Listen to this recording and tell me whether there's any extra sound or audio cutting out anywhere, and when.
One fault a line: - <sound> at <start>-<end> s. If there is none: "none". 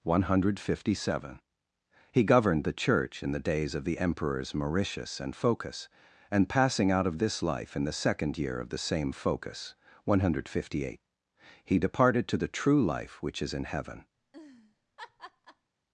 - laugh at 14.2-15.7 s